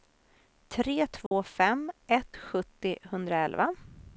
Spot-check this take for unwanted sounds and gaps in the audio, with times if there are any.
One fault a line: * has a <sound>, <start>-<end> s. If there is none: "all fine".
* has a dropout, 1.3-1.3 s